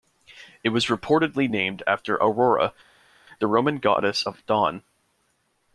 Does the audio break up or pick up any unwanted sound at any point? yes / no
no